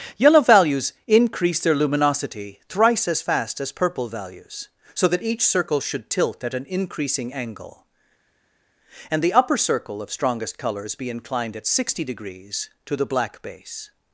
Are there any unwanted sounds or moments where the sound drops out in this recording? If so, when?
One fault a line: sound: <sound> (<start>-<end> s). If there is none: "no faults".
no faults